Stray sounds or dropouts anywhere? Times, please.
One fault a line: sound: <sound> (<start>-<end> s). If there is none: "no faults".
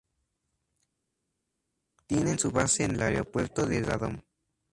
no faults